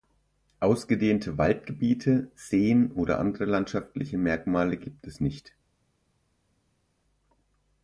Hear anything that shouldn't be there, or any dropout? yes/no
no